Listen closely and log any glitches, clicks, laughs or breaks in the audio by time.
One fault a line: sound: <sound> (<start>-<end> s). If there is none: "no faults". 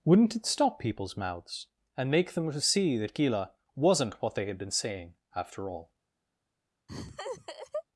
sound: laugh (6.9-7.8 s)